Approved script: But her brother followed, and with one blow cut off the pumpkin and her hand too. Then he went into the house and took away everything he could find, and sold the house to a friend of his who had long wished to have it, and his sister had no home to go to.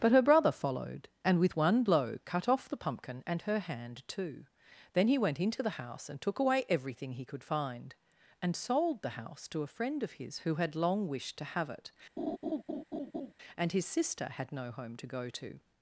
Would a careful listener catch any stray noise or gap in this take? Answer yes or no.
yes